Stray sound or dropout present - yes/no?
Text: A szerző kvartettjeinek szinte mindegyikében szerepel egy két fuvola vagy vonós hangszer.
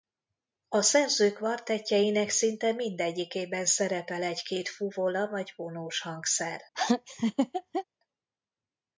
yes